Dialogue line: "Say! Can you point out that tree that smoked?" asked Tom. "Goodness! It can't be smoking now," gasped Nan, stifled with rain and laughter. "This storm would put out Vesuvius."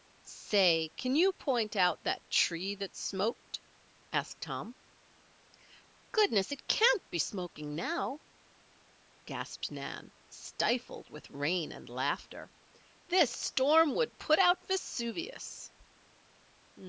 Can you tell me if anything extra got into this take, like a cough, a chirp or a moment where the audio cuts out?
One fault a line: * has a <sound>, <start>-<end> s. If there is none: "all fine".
all fine